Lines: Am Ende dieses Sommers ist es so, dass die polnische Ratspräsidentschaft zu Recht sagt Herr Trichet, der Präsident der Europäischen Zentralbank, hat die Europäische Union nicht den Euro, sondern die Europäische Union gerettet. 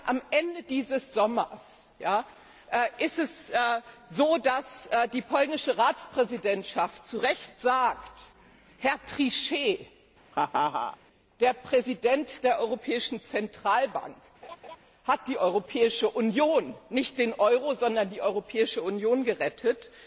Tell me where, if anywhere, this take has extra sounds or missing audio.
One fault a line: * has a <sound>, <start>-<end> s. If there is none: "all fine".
* has a laugh, 10.3-11.0 s
* has a laugh, 14.4-14.8 s